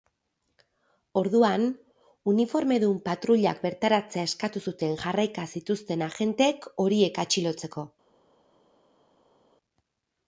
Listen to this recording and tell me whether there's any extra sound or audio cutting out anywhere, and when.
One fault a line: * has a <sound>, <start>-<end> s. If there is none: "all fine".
all fine